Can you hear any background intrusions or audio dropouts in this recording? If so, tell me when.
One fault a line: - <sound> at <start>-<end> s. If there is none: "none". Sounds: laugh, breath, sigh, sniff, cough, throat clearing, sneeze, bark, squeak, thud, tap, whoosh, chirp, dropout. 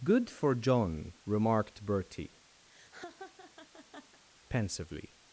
- laugh at 2.6-4.2 s